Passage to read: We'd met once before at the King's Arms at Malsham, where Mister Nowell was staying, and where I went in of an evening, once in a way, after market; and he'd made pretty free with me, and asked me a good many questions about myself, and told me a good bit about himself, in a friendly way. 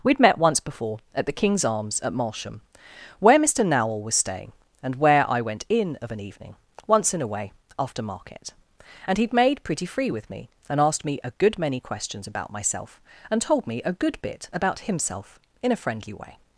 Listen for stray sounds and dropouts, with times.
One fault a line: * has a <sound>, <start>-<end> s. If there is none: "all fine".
all fine